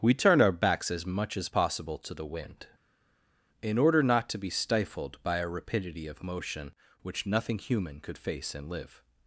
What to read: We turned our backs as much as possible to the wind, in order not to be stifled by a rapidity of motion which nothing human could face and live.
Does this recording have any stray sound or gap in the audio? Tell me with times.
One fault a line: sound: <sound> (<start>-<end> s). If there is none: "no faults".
no faults